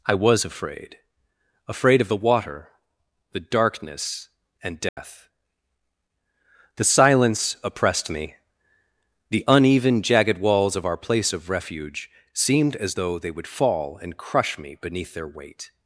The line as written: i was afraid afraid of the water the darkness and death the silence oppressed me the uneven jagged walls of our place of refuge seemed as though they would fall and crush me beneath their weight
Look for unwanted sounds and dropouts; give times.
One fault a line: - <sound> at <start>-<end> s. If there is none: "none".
- dropout at 4.9-5.0 s